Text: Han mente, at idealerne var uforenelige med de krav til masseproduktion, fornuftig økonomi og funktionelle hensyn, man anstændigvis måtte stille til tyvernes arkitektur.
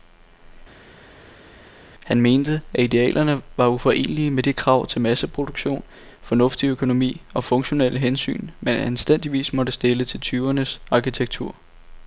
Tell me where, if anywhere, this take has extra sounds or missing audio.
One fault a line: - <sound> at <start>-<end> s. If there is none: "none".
none